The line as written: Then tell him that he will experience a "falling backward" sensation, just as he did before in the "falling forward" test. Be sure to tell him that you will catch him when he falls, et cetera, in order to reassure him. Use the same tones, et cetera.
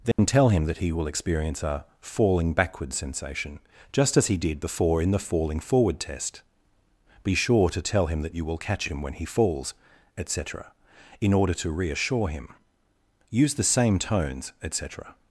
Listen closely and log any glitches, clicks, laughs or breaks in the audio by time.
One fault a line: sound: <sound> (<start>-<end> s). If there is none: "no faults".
sound: dropout (0.1-0.2 s)